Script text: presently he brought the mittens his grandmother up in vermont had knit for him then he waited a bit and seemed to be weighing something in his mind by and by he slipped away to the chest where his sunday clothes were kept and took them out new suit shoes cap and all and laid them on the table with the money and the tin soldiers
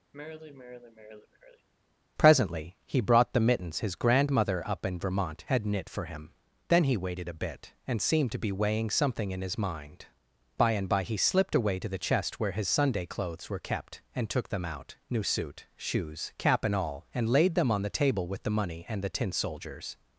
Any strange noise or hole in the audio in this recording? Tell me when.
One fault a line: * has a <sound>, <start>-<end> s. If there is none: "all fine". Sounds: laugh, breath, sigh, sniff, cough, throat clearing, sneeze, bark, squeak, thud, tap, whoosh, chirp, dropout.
* has a sigh, 0.1-1.7 s